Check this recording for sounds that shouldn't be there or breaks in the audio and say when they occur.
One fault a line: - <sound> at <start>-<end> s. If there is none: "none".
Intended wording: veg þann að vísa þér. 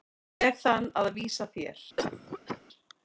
- cough at 2.0-2.6 s